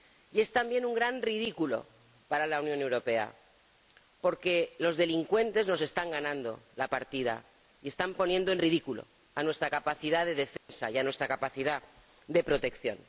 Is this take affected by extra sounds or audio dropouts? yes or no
yes